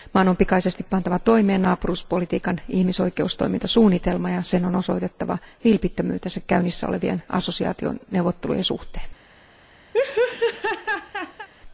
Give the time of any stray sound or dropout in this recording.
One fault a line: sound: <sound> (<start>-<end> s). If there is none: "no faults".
sound: laugh (9.9-11.5 s)